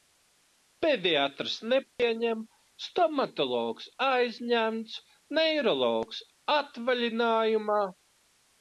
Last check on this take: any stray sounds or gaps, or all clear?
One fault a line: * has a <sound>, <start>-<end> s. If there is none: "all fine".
* has a dropout, 1.9-2.0 s